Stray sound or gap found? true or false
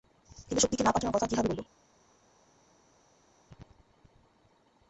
false